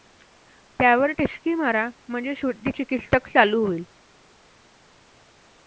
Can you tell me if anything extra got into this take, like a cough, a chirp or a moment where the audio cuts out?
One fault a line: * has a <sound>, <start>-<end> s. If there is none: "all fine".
all fine